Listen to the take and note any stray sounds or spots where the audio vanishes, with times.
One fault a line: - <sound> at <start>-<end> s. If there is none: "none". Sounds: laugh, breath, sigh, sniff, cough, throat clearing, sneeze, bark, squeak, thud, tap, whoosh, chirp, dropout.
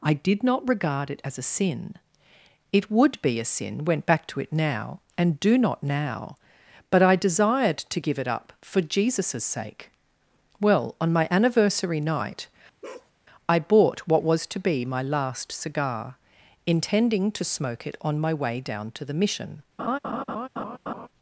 - bark at 12.8-13.1 s
- laugh at 19.8-21.1 s